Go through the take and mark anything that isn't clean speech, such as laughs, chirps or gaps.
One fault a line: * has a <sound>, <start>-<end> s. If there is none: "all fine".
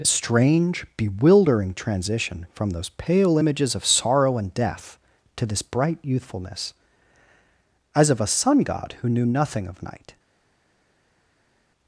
all fine